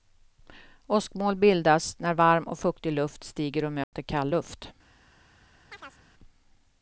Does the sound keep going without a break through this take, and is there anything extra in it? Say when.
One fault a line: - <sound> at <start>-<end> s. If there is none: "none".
- dropout at 3.8-3.9 s
- chirp at 5.7-6.0 s